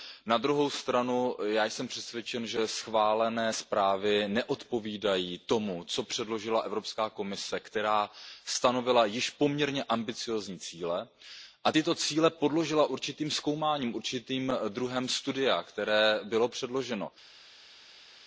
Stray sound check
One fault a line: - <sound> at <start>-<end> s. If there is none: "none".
none